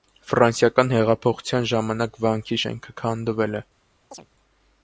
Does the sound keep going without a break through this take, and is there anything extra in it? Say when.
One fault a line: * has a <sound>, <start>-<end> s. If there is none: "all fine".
* has a chirp, 4.1-4.3 s